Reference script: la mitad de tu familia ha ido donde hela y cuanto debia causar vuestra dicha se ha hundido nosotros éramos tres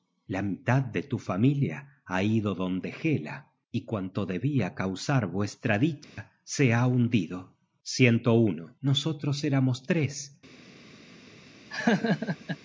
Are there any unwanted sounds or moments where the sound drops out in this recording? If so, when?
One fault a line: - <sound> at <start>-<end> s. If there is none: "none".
- dropout at 6.0-6.2 s
- laugh at 11.7-12.6 s